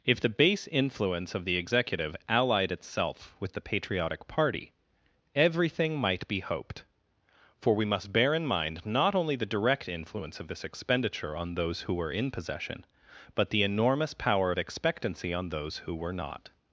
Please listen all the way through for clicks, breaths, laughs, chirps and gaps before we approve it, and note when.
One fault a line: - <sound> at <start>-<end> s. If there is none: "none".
none